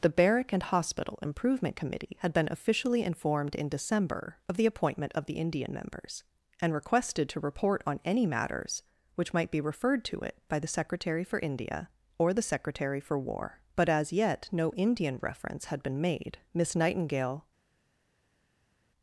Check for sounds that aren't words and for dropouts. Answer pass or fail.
pass